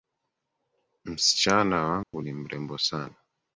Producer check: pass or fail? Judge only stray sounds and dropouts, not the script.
fail